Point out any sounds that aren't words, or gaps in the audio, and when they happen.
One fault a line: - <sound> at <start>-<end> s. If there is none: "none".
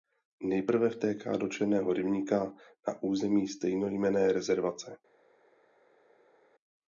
none